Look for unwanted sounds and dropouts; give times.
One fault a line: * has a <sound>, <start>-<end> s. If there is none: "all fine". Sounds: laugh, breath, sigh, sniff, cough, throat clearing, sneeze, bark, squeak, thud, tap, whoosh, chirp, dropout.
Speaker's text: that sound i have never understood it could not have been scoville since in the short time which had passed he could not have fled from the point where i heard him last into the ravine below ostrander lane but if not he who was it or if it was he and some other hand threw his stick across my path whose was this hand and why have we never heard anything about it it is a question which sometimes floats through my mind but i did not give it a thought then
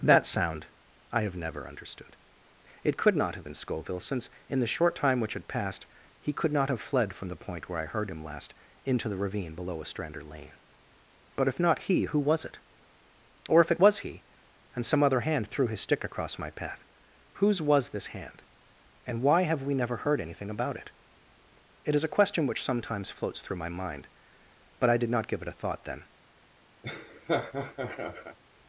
* has a laugh, 26.8-28.4 s